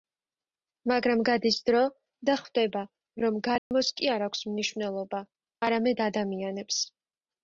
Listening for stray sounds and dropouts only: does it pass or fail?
fail